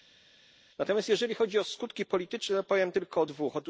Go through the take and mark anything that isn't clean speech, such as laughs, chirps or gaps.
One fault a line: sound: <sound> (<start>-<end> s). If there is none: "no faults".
no faults